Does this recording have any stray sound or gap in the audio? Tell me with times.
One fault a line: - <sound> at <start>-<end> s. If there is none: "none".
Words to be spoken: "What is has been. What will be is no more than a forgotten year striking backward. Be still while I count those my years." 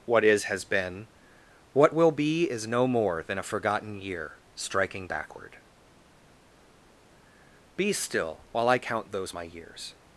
none